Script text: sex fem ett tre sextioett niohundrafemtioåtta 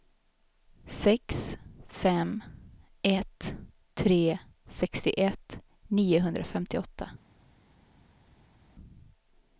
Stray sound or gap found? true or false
false